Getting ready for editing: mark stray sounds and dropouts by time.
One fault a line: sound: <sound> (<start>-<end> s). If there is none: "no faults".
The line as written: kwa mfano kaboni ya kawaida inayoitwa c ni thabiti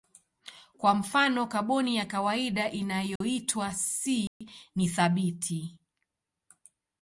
sound: dropout (3.2-3.2 s)
sound: dropout (4.3-4.4 s)